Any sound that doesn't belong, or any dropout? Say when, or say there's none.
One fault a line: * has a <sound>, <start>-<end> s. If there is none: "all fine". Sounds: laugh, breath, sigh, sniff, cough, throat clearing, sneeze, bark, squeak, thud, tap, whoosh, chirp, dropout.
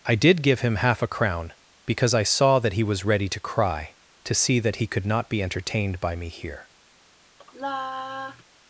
* has a sigh, 7.4-8.4 s